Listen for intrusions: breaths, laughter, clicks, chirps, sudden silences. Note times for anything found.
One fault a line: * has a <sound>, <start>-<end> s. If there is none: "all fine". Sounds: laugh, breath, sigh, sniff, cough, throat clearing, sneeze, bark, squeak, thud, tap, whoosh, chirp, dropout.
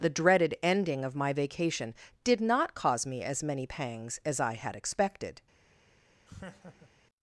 * has a laugh, 6.3-6.9 s